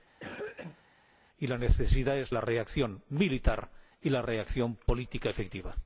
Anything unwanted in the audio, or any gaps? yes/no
yes